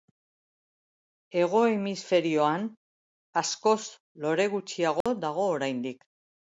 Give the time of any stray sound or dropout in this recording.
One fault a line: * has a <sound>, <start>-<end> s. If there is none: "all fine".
* has a dropout, 5.0-5.1 s